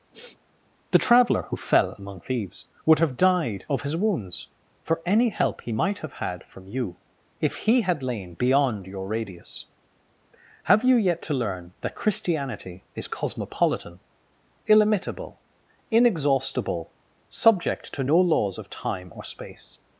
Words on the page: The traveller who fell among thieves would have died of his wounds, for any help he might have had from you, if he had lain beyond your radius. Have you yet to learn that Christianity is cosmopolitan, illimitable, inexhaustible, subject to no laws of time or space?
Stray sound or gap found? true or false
true